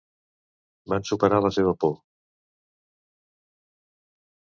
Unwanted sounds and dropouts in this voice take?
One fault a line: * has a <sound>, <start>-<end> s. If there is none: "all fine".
all fine